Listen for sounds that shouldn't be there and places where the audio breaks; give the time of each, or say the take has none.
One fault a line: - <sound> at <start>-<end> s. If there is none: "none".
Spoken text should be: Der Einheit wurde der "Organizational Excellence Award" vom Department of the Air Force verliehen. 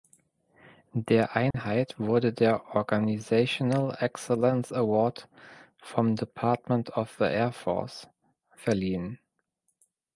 - dropout at 1.5-1.5 s